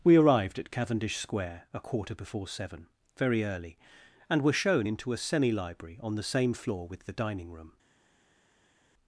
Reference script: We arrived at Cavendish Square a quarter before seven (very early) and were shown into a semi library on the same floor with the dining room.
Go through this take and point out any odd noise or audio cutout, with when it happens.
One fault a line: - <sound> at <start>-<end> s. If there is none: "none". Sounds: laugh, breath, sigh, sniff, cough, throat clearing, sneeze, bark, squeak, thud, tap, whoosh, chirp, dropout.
none